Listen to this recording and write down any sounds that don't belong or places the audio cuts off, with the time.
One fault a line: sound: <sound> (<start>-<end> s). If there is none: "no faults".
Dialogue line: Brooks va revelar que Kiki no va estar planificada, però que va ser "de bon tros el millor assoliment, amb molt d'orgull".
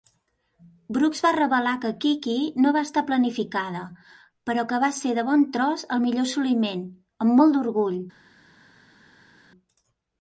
no faults